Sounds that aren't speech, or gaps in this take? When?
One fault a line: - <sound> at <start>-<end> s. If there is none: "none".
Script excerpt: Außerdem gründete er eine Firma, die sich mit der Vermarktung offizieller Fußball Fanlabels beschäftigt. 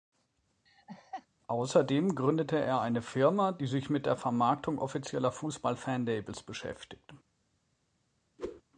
- laugh at 0.7-1.3 s
- whoosh at 8.4-8.6 s